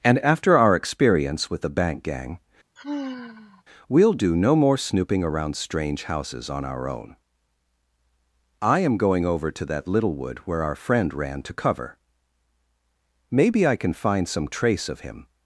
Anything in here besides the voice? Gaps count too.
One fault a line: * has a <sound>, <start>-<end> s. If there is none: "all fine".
* has a sigh, 2.8-3.6 s